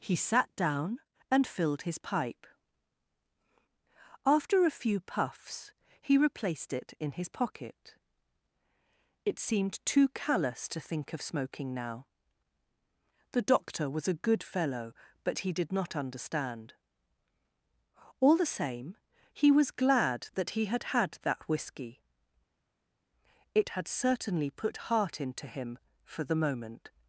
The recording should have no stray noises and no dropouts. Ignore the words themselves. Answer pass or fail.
pass